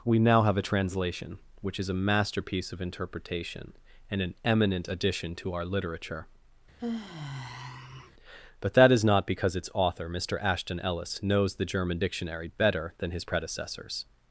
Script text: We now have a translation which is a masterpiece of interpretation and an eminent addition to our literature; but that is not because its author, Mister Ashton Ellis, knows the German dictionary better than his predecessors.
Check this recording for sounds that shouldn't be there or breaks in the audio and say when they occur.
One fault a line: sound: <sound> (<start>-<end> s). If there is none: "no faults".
sound: sigh (6.8-8.1 s)